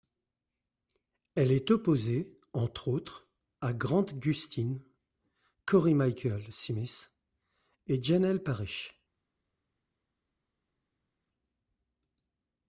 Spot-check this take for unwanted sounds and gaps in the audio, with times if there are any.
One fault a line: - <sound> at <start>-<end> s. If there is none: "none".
none